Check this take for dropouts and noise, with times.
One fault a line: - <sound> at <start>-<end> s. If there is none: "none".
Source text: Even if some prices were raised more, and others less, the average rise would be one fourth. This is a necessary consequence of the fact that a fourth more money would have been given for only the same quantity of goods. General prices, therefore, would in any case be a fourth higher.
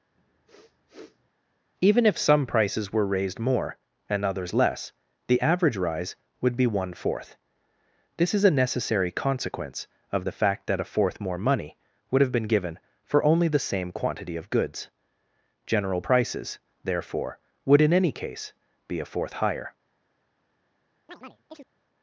- sniff at 0.1-1.3 s
- chirp at 21.1-21.7 s